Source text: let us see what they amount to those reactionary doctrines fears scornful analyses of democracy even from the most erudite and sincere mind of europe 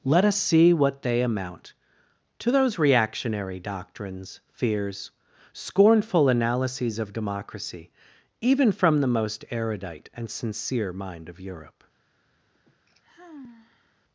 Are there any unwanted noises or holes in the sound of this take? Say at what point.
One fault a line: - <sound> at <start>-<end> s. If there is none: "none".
- sigh at 12.5-14.0 s